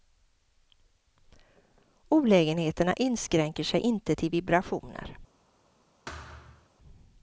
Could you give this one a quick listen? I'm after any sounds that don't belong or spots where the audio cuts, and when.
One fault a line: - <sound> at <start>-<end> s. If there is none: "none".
- thud at 6.1-6.7 s